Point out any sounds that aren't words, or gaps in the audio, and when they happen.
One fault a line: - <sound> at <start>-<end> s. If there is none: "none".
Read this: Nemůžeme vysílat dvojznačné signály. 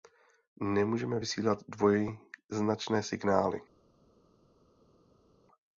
none